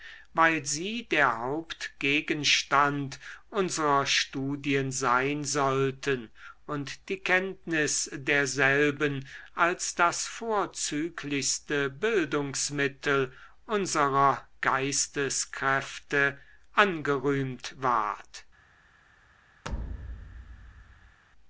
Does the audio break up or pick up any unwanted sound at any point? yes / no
yes